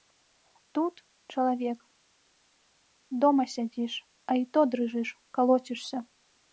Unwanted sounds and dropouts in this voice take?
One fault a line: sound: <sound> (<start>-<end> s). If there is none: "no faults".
no faults